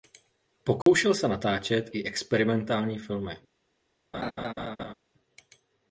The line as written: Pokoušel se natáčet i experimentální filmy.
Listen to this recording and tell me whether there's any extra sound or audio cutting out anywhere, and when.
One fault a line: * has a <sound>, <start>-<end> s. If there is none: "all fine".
* has a dropout, 0.8-0.9 s
* has a laugh, 4.1-4.9 s